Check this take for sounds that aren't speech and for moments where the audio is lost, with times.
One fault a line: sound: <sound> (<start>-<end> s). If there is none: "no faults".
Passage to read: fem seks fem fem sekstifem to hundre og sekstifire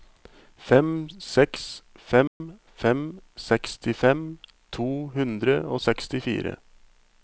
sound: dropout (2.3-2.4 s)